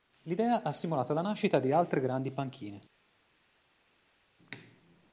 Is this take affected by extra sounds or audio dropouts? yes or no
no